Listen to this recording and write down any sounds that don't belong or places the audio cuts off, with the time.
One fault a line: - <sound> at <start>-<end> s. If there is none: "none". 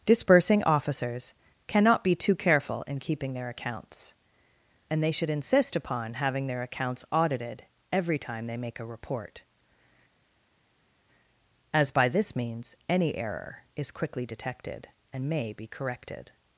none